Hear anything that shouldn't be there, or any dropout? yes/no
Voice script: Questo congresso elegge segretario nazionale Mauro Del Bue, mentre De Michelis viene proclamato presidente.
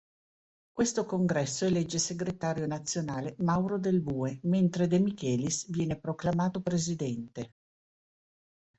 no